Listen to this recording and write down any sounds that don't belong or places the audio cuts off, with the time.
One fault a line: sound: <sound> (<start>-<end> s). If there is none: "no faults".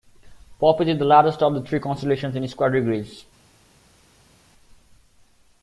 no faults